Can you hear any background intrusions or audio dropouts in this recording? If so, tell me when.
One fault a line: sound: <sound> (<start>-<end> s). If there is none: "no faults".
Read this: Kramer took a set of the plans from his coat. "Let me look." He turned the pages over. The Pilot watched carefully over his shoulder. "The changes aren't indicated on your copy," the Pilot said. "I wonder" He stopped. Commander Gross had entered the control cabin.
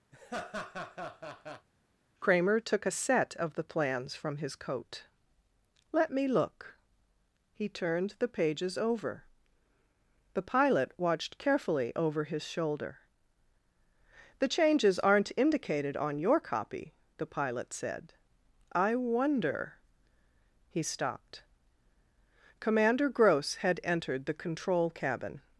sound: laugh (0.1-1.7 s)